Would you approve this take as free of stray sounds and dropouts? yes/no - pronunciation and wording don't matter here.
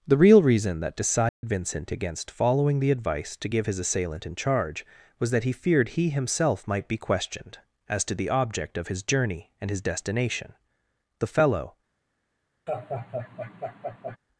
no